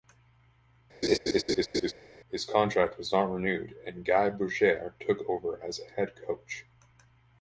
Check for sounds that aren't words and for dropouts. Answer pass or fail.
fail